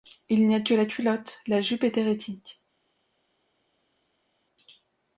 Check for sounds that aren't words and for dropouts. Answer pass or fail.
pass